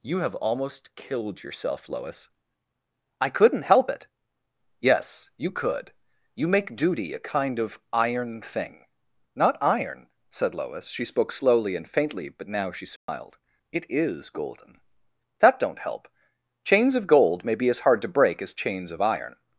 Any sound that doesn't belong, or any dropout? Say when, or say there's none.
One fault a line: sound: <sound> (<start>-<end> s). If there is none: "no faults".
sound: dropout (13.0-13.1 s)